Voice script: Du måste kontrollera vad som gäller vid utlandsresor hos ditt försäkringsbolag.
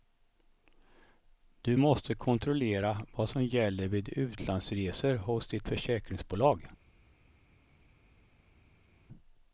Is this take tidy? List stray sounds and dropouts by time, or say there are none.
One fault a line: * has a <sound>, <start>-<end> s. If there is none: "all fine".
all fine